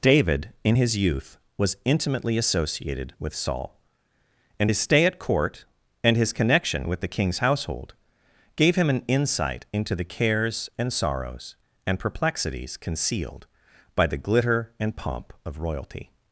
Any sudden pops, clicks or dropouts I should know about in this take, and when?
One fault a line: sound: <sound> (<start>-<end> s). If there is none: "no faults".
no faults